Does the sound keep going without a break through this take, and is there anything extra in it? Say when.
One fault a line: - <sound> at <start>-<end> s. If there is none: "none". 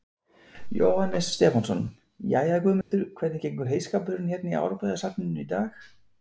- dropout at 2.8-2.9 s